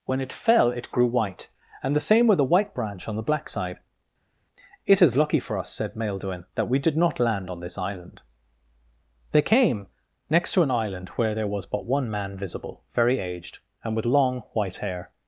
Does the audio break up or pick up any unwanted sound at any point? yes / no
no